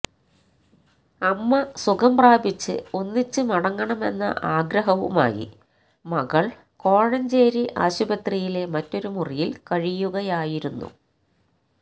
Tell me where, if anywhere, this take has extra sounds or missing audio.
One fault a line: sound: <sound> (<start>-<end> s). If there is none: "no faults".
no faults